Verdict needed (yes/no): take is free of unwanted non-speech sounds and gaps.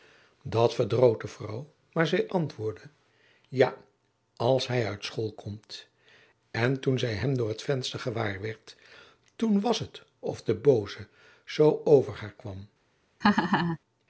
no